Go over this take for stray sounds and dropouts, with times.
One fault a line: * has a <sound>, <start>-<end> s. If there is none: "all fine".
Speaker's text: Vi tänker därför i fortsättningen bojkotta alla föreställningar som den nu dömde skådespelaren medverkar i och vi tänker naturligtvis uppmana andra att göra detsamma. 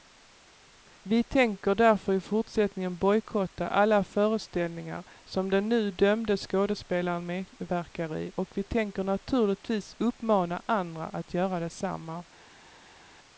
all fine